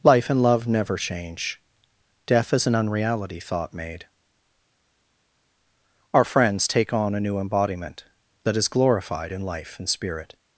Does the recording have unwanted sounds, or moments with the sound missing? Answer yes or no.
no